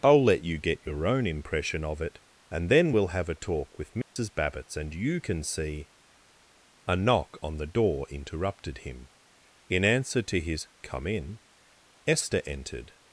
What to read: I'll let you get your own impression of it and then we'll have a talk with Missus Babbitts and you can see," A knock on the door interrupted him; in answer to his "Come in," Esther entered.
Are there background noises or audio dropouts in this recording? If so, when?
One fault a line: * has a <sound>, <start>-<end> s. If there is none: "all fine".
* has a dropout, 4.0-4.2 s